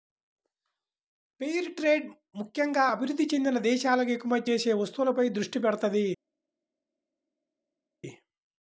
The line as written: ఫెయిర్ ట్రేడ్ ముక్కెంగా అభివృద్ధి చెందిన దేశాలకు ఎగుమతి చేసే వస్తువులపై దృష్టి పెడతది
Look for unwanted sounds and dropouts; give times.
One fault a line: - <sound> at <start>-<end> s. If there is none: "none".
none